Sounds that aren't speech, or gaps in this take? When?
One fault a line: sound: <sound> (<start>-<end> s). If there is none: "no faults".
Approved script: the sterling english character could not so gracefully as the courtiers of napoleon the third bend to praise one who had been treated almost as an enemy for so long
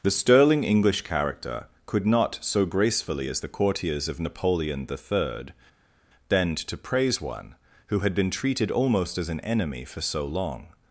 no faults